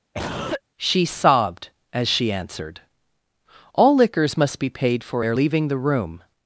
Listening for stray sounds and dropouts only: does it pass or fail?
fail